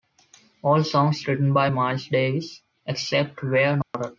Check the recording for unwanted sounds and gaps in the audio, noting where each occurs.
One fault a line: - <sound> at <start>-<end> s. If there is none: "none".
- dropout at 3.8-3.9 s